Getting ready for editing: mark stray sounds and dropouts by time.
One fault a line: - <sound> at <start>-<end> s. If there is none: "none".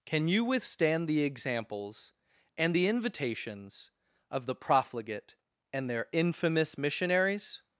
none